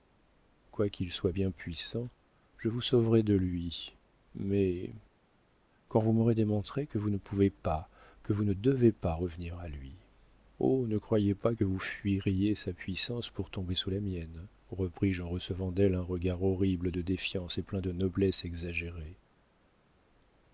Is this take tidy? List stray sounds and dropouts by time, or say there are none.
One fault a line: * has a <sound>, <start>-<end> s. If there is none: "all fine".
all fine